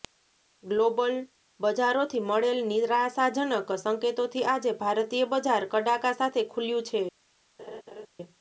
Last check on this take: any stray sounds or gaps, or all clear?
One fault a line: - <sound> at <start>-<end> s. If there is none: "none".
- laugh at 7.6-8.1 s